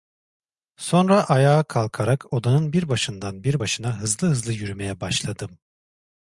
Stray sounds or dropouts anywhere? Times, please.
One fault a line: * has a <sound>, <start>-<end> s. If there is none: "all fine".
all fine